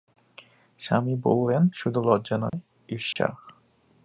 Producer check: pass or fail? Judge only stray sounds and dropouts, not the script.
fail